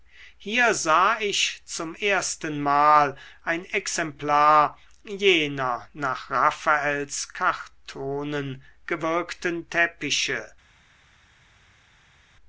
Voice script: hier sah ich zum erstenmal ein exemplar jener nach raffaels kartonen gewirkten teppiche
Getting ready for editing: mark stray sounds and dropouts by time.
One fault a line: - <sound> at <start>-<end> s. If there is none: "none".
none